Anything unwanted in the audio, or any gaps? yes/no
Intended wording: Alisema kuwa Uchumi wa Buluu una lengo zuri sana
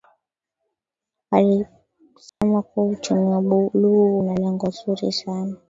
yes